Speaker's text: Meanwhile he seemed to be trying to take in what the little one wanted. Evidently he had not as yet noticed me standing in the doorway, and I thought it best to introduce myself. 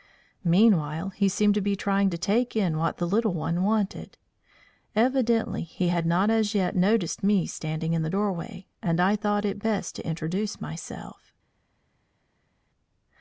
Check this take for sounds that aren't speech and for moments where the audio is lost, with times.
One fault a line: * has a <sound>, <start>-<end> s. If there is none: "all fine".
all fine